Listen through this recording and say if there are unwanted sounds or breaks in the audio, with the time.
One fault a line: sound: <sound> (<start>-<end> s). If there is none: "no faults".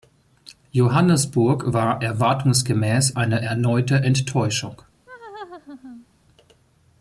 sound: laugh (5.1-6.1 s)